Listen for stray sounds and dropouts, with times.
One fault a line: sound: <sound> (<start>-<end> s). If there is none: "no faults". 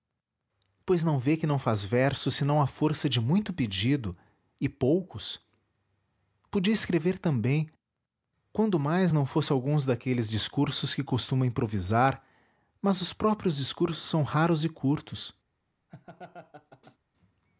sound: laugh (15.9-17.0 s)